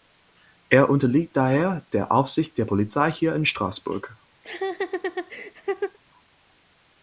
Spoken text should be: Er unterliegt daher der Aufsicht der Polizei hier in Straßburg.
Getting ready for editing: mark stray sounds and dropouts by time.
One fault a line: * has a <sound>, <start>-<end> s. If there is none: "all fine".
* has a laugh, 4.4-6.0 s